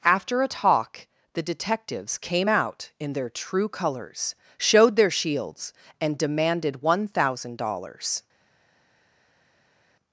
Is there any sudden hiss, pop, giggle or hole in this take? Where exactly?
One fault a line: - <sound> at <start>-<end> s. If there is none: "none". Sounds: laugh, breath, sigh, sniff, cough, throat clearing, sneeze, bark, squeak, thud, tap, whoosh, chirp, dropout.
none